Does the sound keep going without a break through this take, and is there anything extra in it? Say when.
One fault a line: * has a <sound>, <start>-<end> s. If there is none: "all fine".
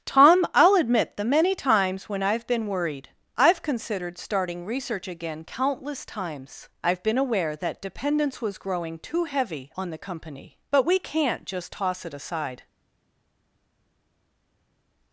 all fine